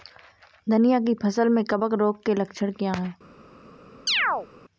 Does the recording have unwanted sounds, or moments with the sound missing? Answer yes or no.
yes